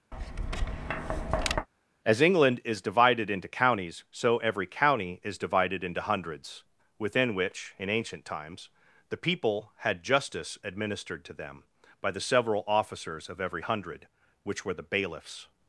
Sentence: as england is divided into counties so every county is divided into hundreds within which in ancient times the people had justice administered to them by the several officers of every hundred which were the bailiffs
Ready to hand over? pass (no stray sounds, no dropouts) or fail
fail